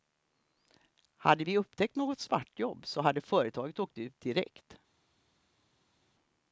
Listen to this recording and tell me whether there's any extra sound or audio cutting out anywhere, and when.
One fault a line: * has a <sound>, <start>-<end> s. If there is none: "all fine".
all fine